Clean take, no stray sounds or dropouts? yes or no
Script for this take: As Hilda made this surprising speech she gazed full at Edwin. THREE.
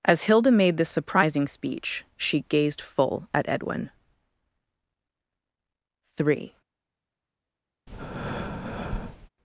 no